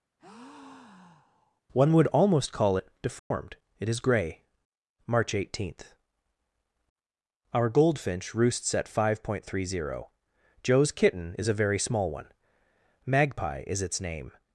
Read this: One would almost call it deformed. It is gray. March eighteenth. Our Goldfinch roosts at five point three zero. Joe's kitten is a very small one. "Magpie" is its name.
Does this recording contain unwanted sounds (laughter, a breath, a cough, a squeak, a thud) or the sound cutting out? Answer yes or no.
yes